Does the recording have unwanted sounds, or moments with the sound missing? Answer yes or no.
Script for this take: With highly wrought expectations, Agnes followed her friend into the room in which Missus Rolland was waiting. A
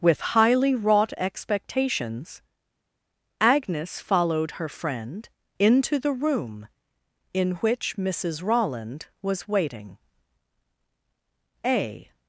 no